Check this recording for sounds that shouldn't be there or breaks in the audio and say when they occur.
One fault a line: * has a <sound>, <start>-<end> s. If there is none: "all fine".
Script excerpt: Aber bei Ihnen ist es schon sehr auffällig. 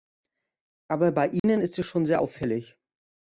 * has a dropout, 1.4-1.4 s